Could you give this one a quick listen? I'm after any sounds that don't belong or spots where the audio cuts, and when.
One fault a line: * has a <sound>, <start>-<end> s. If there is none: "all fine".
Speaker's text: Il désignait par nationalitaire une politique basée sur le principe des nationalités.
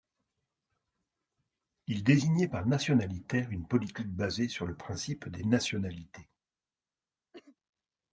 * has a cough, 7.3-7.6 s